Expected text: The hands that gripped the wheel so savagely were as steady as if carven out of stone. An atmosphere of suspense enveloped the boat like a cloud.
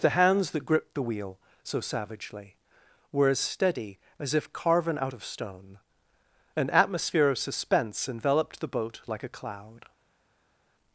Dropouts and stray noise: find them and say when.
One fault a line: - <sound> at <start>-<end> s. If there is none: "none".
none